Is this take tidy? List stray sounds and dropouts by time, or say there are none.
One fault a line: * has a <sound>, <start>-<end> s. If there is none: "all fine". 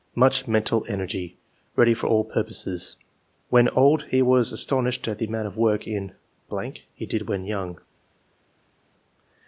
all fine